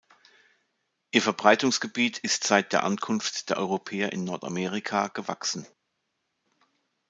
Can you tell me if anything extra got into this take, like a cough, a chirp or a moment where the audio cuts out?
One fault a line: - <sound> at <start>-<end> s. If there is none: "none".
none